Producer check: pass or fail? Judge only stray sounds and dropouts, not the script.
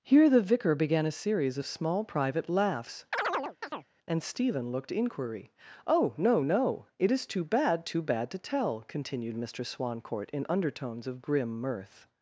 fail